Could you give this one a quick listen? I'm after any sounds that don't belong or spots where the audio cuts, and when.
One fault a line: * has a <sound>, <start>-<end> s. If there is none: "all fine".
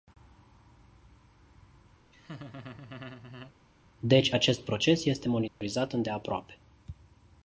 * has a laugh, 2.1-3.5 s
* has a dropout, 5.5-5.6 s